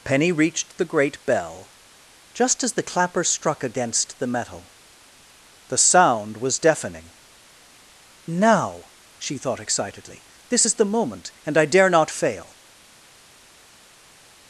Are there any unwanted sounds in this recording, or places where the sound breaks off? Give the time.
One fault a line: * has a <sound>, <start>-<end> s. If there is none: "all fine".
all fine